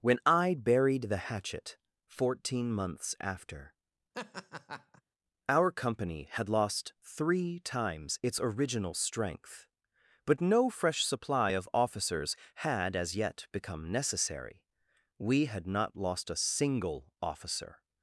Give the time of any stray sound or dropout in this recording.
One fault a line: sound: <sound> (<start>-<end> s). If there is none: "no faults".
sound: laugh (4.1-5.0 s)